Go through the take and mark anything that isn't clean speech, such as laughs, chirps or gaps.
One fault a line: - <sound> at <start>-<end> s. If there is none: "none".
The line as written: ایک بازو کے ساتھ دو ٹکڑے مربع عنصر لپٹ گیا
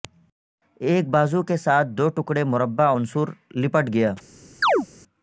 - chirp at 4.6-4.9 s